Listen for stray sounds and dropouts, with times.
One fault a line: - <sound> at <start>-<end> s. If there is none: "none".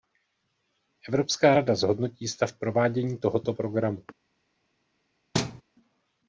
- thud at 5.3-5.6 s